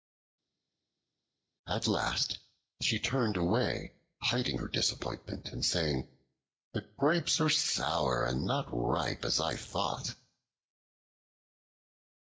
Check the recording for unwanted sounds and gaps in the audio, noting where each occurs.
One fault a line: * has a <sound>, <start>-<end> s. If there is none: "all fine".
all fine